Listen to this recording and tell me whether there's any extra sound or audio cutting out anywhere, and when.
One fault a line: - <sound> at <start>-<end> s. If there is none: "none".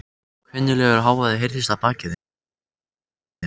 none